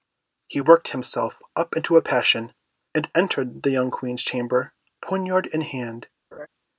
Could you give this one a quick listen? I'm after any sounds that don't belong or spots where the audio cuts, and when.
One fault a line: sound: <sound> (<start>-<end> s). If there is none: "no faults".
sound: laugh (6.3-6.5 s)